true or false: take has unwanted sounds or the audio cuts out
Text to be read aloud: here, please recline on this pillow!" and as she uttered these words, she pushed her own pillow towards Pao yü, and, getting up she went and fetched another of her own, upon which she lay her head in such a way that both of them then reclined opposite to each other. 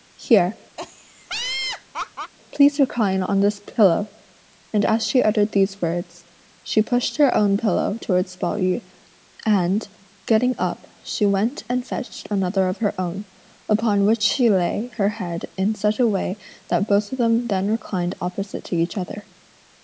true